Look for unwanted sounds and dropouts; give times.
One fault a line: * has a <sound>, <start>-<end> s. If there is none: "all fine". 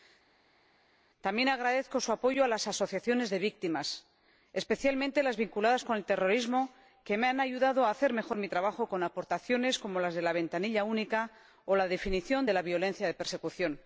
all fine